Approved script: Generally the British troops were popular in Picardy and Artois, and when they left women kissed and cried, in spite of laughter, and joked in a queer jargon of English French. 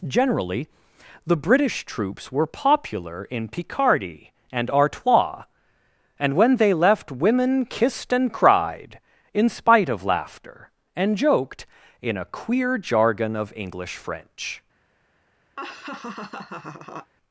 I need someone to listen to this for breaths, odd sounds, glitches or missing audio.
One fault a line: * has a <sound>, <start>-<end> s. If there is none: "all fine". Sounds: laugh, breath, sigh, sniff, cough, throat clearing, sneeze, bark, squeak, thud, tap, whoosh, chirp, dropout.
* has a laugh, 15.6-17.1 s